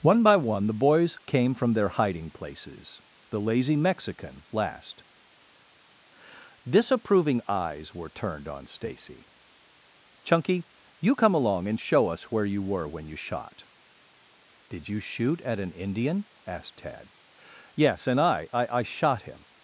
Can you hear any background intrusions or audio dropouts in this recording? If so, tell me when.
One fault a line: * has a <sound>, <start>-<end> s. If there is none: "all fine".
all fine